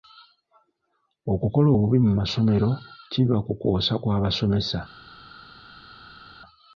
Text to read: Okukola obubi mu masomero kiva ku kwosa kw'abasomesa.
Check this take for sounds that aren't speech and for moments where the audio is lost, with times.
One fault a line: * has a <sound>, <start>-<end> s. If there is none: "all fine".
all fine